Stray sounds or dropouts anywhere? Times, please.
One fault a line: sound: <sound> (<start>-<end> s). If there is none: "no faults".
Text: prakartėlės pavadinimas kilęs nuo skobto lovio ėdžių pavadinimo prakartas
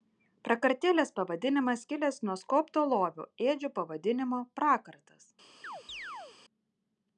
sound: chirp (5.6-6.4 s)